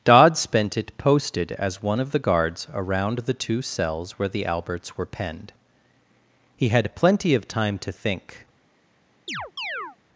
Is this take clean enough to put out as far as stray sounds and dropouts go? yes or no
no